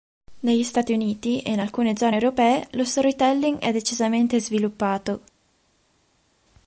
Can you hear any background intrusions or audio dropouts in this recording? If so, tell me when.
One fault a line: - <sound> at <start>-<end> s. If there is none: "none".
none